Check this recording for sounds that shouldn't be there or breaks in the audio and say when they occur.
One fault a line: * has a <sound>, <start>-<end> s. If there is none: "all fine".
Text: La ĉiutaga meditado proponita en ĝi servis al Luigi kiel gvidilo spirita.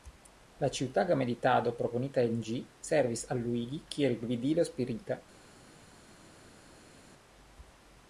all fine